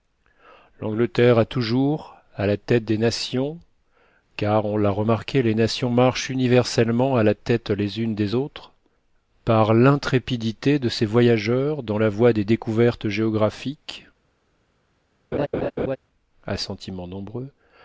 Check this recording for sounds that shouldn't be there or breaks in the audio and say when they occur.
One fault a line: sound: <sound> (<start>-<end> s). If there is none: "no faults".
sound: laugh (15.3-16.0 s)